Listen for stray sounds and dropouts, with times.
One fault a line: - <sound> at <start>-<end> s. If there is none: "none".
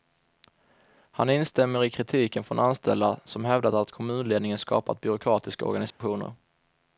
- dropout at 5.9-6.0 s